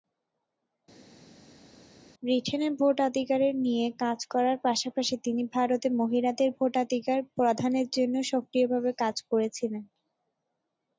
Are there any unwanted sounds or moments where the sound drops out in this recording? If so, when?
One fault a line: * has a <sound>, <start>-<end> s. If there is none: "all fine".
all fine